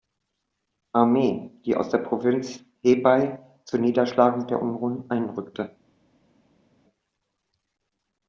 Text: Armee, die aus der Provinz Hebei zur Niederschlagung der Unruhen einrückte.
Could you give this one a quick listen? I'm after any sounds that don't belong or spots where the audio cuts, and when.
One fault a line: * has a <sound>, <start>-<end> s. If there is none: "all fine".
all fine